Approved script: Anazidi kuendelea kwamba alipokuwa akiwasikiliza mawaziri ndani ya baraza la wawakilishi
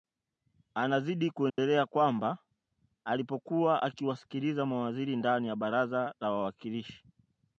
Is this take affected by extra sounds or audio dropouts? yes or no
yes